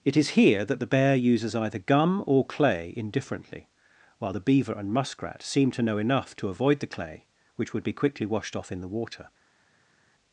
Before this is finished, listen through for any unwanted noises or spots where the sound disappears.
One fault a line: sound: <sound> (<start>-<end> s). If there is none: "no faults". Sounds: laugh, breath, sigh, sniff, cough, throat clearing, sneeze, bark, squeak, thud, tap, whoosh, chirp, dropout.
no faults